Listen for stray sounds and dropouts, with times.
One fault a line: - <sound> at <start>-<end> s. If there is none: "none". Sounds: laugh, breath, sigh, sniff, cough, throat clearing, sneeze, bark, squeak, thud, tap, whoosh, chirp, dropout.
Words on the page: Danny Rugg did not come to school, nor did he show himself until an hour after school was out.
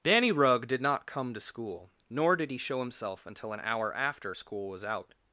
none